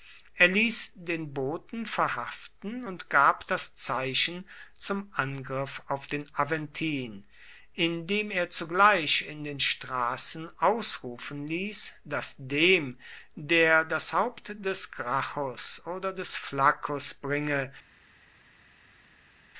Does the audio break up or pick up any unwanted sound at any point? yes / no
no